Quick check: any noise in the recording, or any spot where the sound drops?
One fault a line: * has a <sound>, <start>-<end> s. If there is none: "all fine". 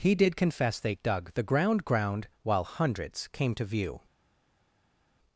all fine